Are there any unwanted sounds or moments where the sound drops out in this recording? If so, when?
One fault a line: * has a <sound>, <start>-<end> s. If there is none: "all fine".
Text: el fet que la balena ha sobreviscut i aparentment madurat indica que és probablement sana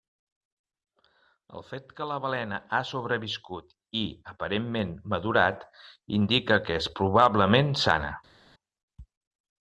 all fine